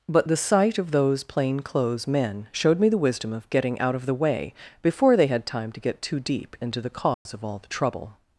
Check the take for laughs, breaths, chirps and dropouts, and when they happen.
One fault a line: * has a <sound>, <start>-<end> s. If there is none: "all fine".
* has a dropout, 7.1-7.3 s